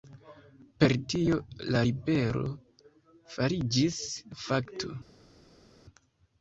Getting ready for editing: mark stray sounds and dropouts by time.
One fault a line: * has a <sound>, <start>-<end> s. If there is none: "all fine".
all fine